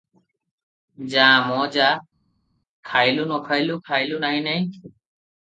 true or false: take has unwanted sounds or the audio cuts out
false